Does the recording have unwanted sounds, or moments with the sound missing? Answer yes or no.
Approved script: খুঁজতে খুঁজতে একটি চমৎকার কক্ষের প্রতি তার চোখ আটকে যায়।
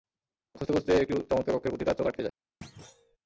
yes